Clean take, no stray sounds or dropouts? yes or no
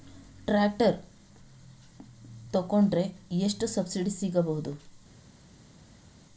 yes